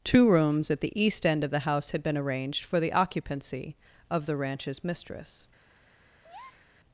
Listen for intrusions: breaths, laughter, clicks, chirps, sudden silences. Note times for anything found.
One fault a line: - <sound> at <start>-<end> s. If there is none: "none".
- breath at 6.2-6.7 s